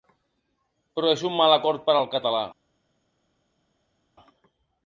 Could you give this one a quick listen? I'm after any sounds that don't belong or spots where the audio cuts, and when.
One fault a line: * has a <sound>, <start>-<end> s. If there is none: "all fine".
all fine